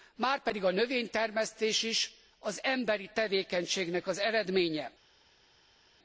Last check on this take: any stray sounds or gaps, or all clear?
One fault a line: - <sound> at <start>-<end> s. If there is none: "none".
none